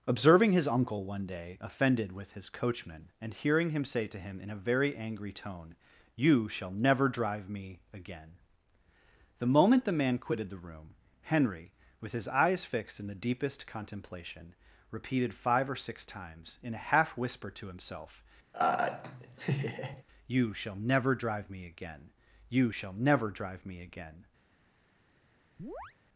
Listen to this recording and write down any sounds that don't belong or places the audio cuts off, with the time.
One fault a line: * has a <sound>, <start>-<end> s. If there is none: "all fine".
* has a laugh, 18.5-20.0 s
* has a chirp, 25.6-25.9 s